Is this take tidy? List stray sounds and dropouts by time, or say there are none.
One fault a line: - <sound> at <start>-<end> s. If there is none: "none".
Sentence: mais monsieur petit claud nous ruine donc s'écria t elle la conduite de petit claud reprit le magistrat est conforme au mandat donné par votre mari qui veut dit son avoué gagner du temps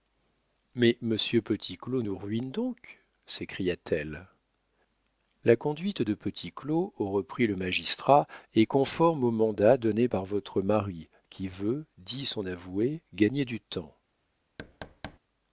- thud at 14.6-15.2 s